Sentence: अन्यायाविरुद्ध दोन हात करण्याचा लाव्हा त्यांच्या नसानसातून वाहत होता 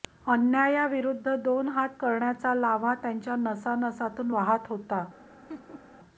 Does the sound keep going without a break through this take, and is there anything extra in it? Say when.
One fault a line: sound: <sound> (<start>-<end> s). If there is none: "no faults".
sound: laugh (5.5-5.9 s)